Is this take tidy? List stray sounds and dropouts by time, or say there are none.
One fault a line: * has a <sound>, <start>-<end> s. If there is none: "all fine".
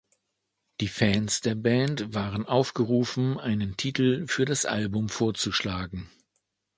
all fine